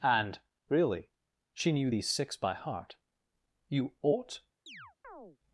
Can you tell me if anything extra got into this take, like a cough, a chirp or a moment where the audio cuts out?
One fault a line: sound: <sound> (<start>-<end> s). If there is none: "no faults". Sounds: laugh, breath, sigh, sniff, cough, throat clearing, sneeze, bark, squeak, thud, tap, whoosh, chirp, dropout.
sound: chirp (4.7-5.4 s)